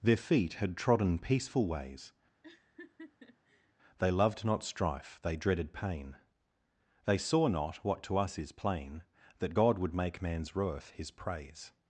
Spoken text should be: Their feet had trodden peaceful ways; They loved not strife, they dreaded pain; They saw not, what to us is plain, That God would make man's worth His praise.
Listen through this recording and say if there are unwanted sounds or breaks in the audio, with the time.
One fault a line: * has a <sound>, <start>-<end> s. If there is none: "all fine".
* has a laugh, 2.4-3.7 s